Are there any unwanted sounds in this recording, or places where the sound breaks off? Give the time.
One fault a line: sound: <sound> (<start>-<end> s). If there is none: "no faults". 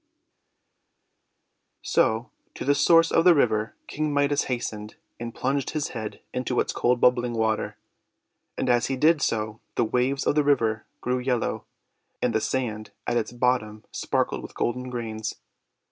no faults